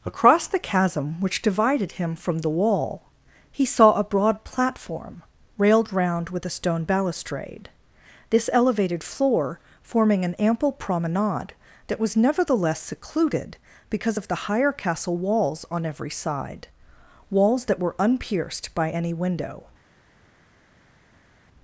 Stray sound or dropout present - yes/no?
no